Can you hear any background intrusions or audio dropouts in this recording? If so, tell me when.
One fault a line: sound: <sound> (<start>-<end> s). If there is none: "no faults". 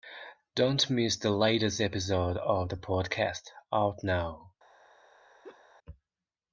sound: laugh (5.4-5.6 s)